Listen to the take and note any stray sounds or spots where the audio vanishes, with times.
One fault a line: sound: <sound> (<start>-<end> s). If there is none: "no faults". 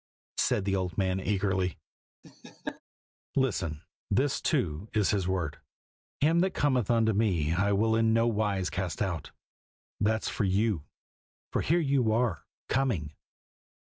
sound: laugh (2.2-2.8 s)